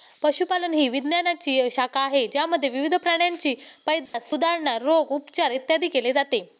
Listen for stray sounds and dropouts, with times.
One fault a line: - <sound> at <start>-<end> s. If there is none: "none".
- dropout at 4.1-4.1 s